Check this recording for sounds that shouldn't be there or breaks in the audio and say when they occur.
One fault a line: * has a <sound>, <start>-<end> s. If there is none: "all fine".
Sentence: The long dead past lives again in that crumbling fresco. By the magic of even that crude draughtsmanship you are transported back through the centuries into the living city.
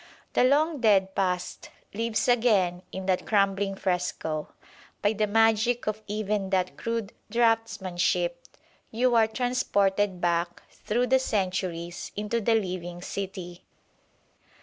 all fine